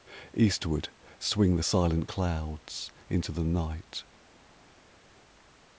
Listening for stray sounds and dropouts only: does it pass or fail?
pass